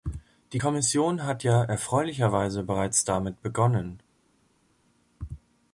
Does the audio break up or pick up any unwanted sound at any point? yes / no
no